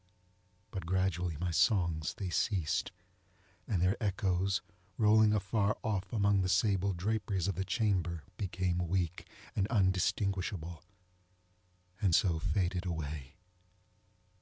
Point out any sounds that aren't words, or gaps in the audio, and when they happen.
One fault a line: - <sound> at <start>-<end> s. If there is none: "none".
none